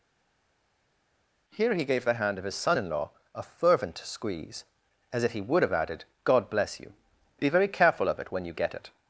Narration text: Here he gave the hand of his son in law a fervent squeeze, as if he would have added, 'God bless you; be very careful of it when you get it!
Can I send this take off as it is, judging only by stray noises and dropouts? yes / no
yes